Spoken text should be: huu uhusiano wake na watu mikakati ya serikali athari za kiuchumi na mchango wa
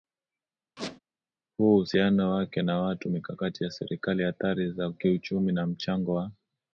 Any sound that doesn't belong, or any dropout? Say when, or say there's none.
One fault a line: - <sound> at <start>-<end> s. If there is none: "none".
- squeak at 0.8-1.0 s